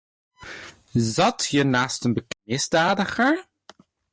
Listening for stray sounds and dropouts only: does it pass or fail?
pass